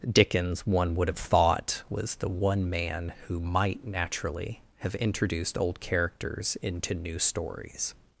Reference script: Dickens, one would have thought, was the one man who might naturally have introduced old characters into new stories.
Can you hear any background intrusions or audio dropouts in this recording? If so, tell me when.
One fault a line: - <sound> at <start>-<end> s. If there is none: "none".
none